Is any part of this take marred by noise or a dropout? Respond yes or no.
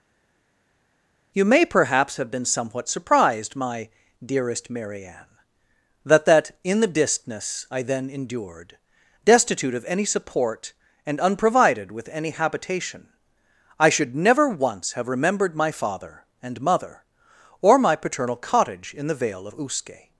no